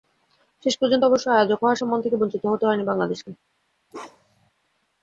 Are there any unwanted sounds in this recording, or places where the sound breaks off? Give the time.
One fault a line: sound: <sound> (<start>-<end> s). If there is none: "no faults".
sound: bark (3.9-4.5 s)